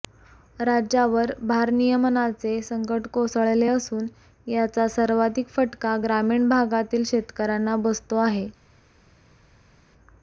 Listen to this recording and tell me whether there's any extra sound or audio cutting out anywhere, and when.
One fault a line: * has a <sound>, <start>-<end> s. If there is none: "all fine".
all fine